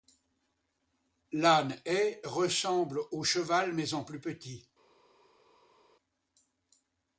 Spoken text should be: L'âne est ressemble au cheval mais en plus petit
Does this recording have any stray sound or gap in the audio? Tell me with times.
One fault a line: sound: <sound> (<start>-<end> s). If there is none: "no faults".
no faults